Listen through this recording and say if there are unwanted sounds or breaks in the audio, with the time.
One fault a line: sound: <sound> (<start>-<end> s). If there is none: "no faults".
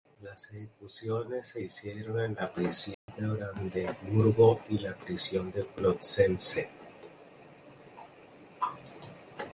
sound: dropout (2.9-3.1 s)